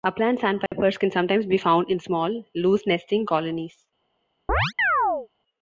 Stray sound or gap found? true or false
true